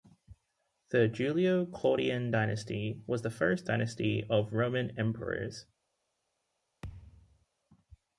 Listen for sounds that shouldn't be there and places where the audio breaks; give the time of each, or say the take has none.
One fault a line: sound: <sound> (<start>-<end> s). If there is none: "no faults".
sound: thud (6.8-7.5 s)